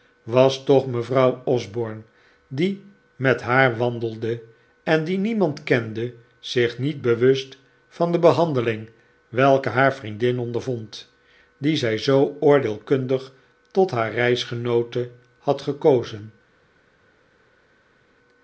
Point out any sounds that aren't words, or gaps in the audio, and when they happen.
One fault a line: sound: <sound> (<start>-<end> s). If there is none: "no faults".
no faults